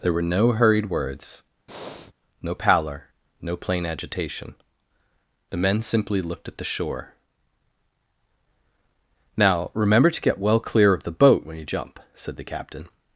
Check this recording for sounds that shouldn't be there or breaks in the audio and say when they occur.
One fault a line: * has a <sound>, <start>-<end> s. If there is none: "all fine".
* has a breath, 1.7-2.1 s